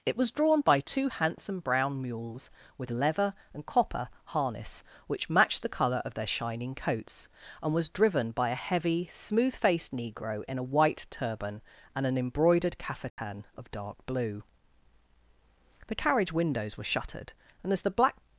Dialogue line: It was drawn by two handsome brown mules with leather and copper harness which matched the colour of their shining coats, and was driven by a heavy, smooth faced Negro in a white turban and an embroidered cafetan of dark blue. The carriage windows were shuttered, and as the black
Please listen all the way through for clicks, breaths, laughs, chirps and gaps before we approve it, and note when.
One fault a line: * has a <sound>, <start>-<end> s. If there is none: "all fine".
* has a dropout, 13.1-13.2 s